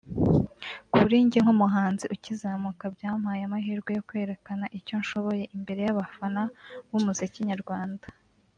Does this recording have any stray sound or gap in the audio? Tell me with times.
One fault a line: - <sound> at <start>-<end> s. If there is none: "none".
none